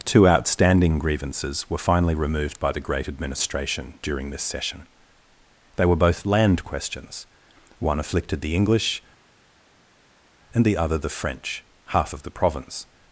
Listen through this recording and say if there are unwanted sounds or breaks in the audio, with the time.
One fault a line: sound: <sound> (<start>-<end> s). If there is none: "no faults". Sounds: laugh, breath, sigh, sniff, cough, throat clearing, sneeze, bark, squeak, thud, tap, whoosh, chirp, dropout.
no faults